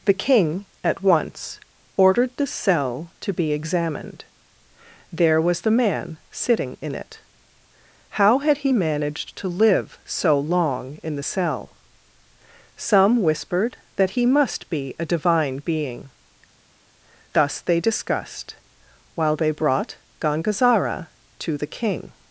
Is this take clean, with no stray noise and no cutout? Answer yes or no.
yes